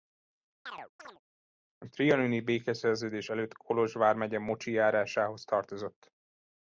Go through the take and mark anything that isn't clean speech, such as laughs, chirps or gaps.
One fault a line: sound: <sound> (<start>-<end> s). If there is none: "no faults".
sound: chirp (0.7-1.2 s)